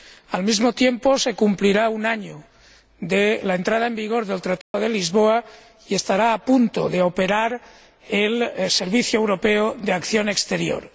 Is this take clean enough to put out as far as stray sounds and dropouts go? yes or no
no